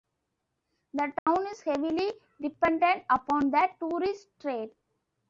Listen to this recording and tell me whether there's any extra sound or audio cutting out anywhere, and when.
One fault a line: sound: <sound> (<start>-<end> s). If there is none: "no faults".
sound: dropout (1.2-1.3 s)